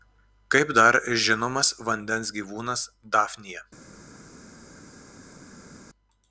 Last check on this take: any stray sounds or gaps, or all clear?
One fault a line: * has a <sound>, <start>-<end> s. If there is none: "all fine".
all fine